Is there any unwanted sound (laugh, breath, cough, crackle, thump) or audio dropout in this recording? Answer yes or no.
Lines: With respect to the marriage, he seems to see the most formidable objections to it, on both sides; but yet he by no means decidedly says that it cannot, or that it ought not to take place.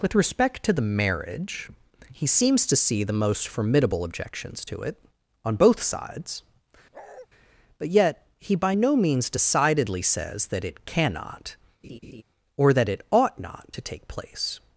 yes